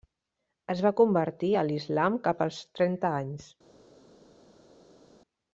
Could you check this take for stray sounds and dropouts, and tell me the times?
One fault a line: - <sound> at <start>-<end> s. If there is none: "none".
none